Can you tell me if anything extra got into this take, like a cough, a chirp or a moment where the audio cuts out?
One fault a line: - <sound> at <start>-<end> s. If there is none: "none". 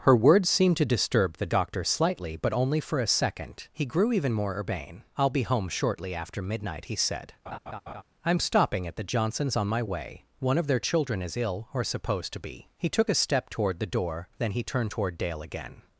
- laugh at 7.5-8.0 s